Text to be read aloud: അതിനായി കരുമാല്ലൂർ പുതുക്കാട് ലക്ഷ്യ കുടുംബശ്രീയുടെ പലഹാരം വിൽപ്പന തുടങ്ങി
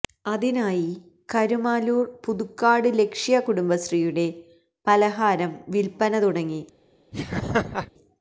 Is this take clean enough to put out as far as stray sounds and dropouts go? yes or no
no